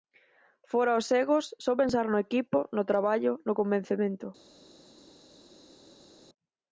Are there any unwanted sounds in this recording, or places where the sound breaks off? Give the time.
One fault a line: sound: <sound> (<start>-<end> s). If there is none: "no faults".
no faults